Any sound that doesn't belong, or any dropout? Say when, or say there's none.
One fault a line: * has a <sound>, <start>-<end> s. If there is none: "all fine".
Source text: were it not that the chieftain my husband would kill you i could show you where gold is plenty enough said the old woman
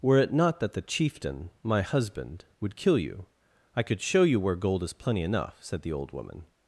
all fine